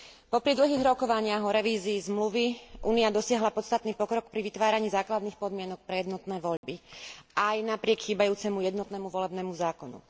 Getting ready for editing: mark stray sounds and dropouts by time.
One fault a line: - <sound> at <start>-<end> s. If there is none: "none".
- dropout at 6.6-6.6 s